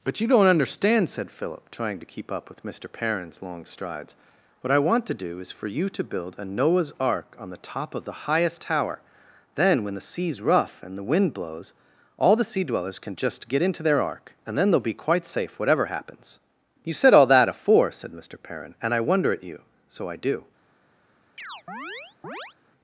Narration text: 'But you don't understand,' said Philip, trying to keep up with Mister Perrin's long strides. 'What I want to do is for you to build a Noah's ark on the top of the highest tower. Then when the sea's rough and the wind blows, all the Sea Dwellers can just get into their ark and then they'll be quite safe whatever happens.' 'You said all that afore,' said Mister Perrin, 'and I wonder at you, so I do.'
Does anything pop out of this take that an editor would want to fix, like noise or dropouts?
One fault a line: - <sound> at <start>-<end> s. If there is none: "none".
- chirp at 21.4-22.5 s